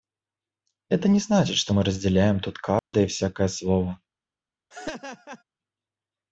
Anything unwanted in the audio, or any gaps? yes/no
yes